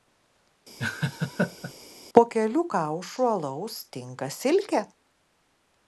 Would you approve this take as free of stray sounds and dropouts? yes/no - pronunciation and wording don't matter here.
no